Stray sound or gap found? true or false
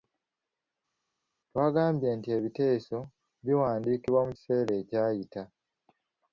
false